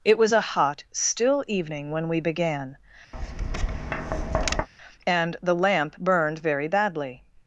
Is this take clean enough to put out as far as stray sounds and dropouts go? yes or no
no